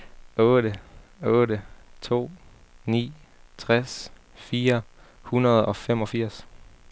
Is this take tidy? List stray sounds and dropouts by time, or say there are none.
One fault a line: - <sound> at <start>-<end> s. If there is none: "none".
none